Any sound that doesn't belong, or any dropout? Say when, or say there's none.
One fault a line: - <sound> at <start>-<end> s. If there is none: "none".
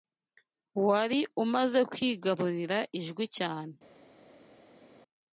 none